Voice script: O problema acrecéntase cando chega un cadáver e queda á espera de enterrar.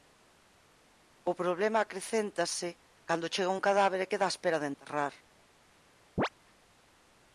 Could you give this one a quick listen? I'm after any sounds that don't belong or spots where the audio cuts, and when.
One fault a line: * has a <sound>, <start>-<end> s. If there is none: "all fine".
* has a chirp, 6.2-6.3 s